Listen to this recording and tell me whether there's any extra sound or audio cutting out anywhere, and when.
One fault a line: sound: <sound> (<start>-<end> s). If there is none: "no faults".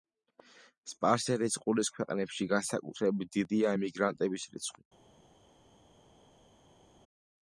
no faults